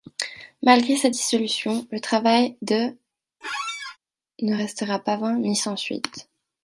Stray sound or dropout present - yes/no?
yes